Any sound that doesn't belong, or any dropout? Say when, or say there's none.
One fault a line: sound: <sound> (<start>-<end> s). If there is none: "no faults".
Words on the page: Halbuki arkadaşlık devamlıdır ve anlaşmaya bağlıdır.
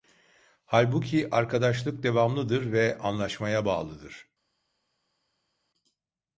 no faults